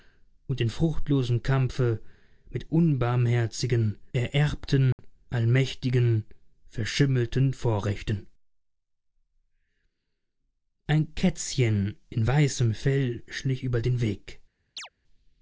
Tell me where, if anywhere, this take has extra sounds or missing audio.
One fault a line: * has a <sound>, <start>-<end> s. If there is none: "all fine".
* has a dropout, 4.9-5.0 s
* has a chirp, 14.8-14.9 s